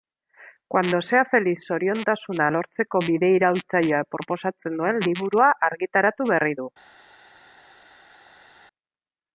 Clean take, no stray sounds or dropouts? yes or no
yes